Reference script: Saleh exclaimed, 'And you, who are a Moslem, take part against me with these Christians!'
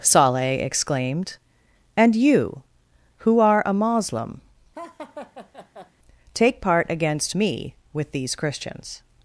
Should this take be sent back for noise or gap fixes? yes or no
yes